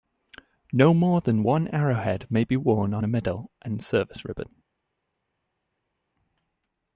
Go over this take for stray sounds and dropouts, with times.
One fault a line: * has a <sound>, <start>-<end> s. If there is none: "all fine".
all fine